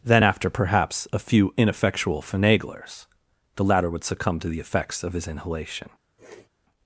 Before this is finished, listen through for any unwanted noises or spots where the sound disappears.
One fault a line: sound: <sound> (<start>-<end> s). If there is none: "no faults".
sound: sniff (6.2-6.5 s)